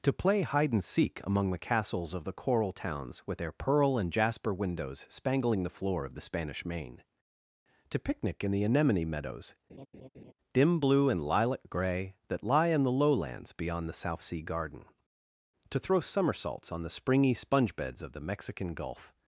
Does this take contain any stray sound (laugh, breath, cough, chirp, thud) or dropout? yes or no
yes